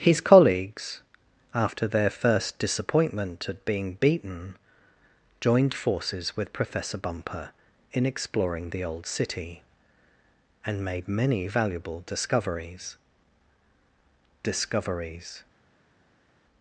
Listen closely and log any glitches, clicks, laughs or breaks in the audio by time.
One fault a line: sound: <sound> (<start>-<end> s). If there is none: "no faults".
no faults